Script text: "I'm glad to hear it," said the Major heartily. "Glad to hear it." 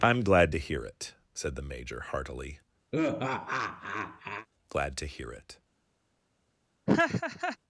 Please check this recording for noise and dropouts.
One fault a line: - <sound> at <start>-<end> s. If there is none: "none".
- laugh at 2.9-4.5 s
- laugh at 6.9-7.6 s